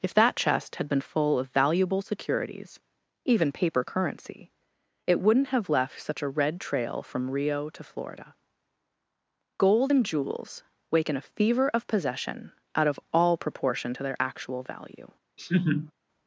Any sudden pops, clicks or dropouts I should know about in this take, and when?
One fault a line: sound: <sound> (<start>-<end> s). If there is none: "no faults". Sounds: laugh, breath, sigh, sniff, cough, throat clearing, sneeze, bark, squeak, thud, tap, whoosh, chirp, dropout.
sound: laugh (15.4-15.9 s)